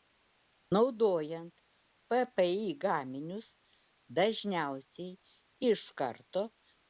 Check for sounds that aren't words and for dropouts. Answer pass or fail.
pass